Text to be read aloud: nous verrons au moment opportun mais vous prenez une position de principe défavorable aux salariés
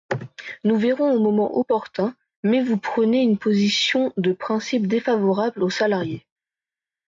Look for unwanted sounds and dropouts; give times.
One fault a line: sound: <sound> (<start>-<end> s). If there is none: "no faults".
no faults